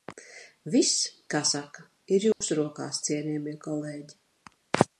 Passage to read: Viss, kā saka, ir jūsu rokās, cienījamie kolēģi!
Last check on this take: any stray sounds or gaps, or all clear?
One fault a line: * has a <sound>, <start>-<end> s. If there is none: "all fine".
* has a dropout, 2.3-2.4 s